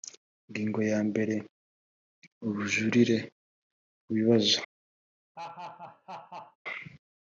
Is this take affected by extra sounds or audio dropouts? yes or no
yes